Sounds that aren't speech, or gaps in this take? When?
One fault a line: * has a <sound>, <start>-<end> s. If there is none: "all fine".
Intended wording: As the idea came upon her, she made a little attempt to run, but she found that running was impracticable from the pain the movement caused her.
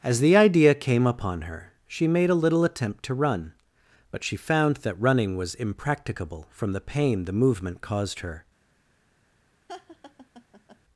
* has a laugh, 9.7-10.8 s